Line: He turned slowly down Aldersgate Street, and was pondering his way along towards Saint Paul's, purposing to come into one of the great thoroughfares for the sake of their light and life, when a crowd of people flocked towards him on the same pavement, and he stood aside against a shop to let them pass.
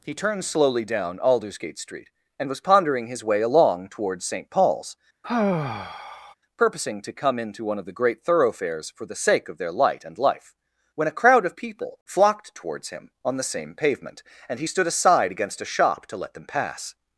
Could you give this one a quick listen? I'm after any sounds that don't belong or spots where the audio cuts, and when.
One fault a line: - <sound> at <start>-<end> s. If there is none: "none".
- sigh at 5.2-6.3 s